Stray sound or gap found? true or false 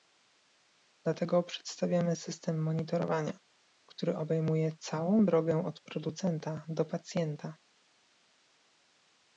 false